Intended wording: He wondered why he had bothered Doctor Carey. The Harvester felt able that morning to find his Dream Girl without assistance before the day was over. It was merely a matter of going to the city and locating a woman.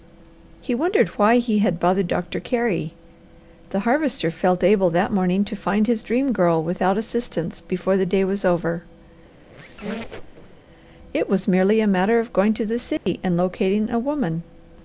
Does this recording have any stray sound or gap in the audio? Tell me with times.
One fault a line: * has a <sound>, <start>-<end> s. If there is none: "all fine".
* has a squeak, 9.3-10.6 s
* has a dropout, 13.0-13.1 s